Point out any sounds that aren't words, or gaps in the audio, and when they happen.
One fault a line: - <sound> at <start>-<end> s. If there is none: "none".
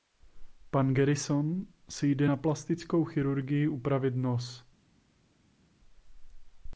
none